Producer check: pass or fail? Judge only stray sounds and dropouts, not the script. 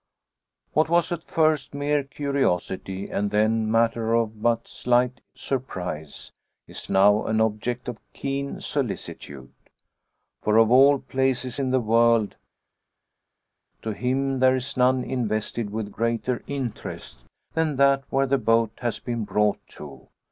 pass